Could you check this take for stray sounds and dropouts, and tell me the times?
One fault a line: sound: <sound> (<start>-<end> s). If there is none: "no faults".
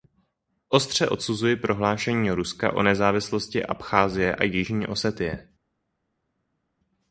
no faults